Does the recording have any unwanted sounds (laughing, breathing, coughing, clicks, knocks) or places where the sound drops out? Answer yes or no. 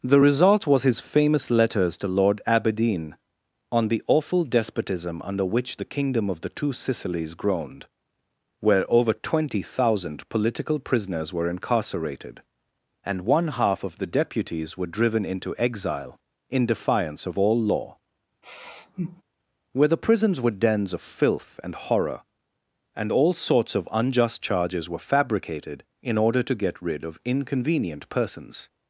yes